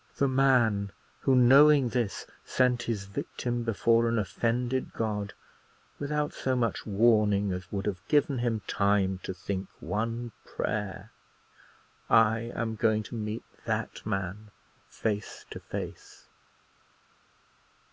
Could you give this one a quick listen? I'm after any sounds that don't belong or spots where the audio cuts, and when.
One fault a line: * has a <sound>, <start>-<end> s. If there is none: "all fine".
all fine